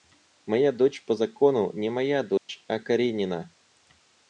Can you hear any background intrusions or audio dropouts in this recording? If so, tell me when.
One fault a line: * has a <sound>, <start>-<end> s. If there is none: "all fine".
* has a dropout, 2.4-2.5 s